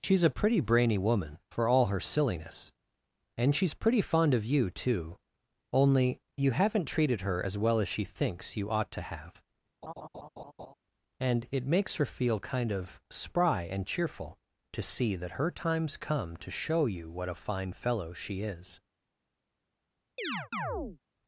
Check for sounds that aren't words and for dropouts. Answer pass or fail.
fail